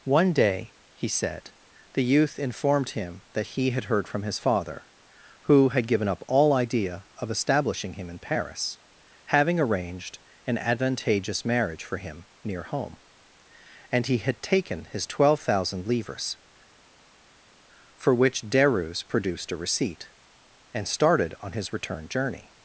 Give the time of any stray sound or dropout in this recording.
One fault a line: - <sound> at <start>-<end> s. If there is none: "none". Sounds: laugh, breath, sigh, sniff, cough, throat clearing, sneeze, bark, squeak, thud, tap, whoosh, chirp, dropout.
none